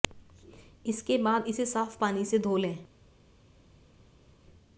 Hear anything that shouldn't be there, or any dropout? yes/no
no